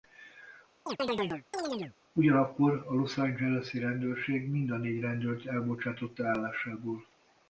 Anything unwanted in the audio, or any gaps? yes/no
yes